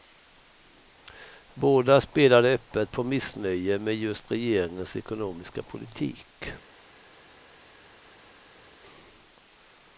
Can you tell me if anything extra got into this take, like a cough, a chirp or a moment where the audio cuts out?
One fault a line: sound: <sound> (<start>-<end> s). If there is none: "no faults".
no faults